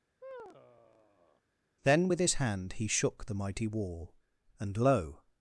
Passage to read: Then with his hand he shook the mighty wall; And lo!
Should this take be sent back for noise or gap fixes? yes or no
yes